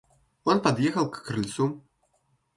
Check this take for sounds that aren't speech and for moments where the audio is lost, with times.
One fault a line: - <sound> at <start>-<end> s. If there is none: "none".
none